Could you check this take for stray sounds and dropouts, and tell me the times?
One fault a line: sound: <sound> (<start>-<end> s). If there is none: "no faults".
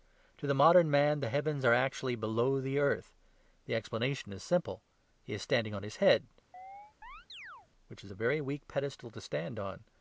sound: chirp (6.5-7.7 s)